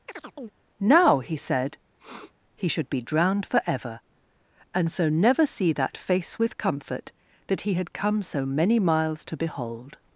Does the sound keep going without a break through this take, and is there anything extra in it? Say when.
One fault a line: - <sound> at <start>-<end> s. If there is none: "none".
- chirp at 0.1-0.5 s
- sniff at 2.0-2.3 s